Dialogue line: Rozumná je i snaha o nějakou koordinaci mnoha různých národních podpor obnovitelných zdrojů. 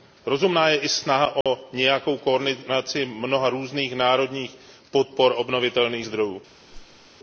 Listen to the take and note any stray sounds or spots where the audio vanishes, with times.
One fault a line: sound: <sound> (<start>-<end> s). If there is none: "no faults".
sound: dropout (1.4-1.5 s)
sound: whoosh (6.7-7.1 s)